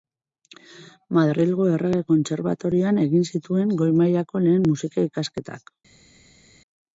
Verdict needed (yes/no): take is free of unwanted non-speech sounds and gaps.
yes